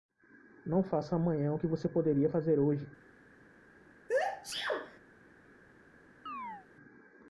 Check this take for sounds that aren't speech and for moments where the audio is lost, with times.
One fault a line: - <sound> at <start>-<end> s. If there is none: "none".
- sneeze at 4.1-5.0 s
- chirp at 6.3-6.7 s